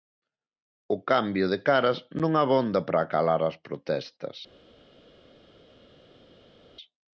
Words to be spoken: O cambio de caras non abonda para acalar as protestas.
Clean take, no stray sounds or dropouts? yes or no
yes